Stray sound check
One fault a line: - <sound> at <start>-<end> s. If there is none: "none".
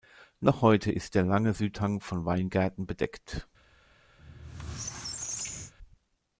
- squeak at 4.2-5.7 s